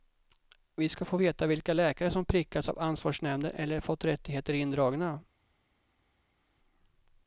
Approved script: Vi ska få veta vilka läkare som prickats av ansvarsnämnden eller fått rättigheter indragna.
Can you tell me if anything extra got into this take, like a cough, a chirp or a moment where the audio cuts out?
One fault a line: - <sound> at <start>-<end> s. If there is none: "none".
none